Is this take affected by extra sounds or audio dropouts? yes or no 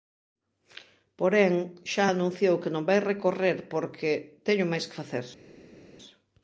no